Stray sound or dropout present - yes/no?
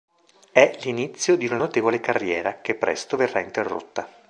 no